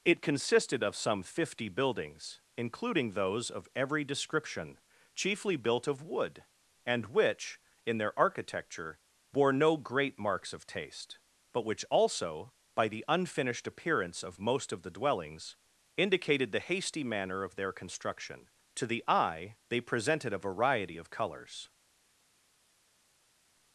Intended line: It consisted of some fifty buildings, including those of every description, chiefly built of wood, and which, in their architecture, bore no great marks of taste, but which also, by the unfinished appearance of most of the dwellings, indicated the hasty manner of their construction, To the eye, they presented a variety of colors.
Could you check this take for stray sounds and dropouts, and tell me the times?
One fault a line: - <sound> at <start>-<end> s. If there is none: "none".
none